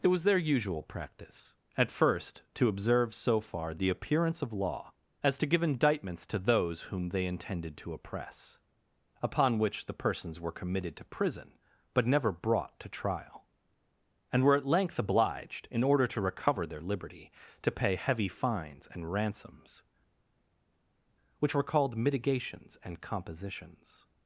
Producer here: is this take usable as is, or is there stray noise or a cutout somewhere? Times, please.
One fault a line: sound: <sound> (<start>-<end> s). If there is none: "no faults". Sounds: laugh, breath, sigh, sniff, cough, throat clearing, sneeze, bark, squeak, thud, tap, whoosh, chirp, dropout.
no faults